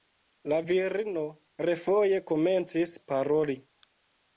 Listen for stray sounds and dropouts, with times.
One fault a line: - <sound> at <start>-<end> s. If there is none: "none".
none